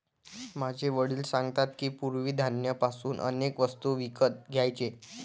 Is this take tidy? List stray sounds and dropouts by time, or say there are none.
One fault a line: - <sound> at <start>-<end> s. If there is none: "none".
none